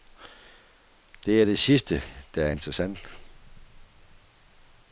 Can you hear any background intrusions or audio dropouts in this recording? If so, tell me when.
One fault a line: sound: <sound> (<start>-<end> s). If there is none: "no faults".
no faults